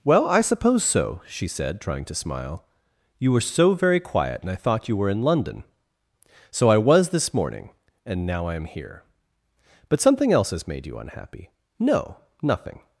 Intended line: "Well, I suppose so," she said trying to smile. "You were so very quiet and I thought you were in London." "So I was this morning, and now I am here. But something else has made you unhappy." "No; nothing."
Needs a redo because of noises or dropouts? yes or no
no